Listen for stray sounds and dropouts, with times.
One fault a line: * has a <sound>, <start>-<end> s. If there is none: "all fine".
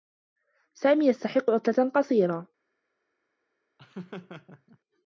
* has a laugh, 3.8-4.8 s